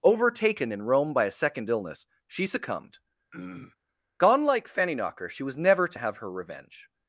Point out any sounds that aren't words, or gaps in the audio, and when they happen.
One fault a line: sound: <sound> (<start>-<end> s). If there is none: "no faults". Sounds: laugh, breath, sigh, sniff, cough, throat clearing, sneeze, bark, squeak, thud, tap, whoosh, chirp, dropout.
sound: throat clearing (3.3-3.8 s)